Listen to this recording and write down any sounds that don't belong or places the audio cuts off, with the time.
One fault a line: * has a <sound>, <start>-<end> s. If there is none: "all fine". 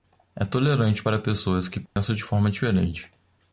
* has a dropout, 1.9-2.0 s